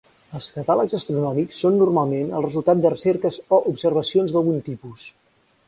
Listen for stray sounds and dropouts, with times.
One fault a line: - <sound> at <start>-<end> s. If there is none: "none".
none